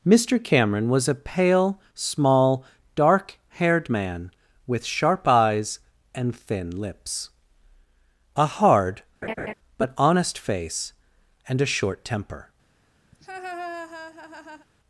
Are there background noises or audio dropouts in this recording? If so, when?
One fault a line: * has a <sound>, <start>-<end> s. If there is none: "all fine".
* has a laugh, 9.2-9.5 s
* has a laugh, 13.1-14.7 s